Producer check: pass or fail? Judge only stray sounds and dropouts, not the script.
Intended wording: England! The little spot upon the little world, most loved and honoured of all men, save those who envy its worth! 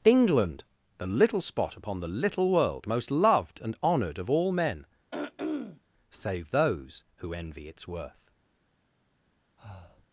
fail